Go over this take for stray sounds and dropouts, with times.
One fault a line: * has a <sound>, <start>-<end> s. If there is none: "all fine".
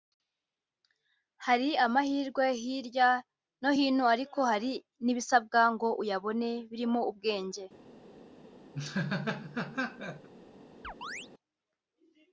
* has a laugh, 8.7-10.3 s
* has a chirp, 10.8-11.3 s